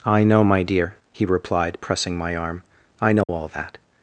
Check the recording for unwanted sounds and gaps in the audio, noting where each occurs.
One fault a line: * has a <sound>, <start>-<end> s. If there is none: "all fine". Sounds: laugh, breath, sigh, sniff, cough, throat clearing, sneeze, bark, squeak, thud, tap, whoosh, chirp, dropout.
* has a dropout, 3.2-3.3 s